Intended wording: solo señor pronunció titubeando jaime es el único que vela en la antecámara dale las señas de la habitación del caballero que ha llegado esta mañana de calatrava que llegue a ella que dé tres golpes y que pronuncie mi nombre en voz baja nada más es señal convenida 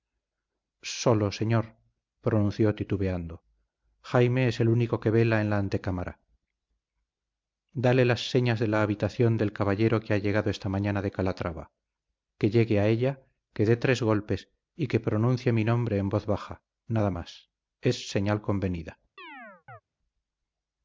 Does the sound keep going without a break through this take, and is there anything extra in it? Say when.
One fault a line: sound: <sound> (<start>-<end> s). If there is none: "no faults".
sound: chirp (19.2-19.8 s)